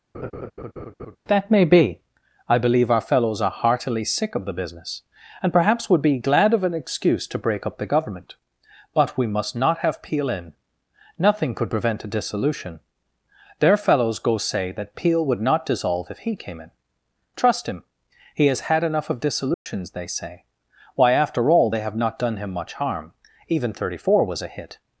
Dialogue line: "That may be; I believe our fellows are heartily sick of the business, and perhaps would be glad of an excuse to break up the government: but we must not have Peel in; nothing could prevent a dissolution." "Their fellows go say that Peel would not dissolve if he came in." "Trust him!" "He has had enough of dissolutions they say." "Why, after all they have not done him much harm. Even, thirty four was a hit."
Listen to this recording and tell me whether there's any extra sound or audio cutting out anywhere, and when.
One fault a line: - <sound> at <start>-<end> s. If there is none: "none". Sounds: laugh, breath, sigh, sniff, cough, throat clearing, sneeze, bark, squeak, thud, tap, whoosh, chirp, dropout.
- laugh at 0.1-1.2 s
- dropout at 19.5-19.7 s